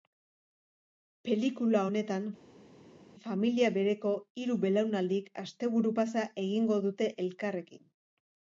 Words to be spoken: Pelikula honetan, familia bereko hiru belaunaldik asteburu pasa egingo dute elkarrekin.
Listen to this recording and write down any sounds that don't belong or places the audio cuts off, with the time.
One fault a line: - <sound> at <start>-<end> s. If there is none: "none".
none